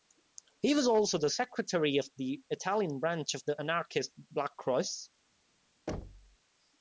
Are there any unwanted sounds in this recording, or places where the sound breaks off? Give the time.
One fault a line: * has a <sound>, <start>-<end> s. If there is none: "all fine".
* has a thud, 5.9-6.4 s